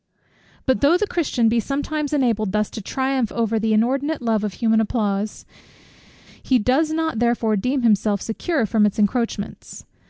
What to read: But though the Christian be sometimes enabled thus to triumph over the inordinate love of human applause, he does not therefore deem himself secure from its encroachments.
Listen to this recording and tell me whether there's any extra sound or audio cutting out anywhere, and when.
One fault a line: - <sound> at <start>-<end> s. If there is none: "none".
none